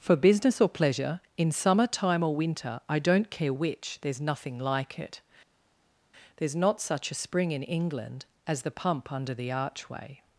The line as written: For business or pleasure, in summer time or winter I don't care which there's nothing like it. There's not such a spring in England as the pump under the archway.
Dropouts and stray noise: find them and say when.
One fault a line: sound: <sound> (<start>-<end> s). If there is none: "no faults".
no faults